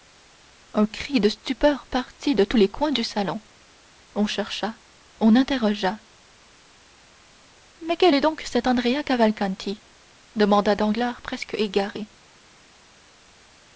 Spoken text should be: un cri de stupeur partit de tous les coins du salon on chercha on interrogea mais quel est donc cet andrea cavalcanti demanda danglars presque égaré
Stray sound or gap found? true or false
false